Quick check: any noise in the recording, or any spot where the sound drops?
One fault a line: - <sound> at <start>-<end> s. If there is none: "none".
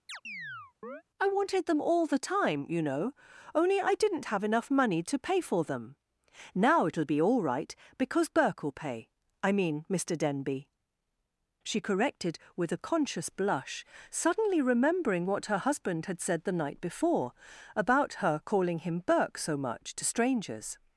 - chirp at 0.1-1.0 s